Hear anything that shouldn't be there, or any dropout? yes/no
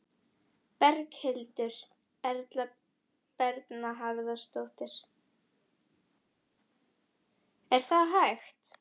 no